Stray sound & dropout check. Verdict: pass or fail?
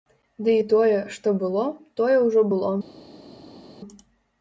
pass